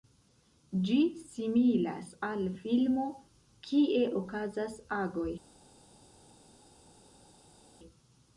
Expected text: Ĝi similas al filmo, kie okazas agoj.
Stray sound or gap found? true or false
false